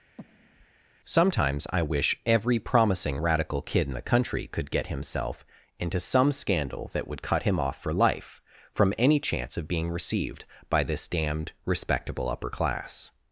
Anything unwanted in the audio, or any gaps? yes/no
yes